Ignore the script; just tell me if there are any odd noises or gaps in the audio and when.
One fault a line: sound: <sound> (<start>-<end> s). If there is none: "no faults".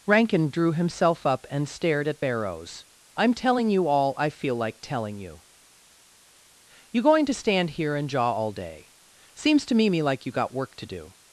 no faults